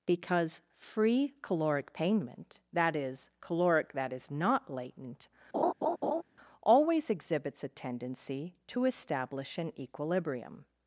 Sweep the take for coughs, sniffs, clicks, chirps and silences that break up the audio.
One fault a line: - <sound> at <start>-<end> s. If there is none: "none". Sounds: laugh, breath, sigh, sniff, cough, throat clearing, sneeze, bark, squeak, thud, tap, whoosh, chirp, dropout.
- laugh at 5.5-6.2 s